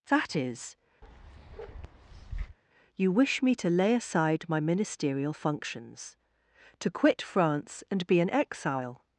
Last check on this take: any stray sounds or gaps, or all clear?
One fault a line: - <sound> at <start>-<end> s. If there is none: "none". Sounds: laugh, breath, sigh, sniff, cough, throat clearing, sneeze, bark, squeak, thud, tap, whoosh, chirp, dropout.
- bark at 1.0-2.6 s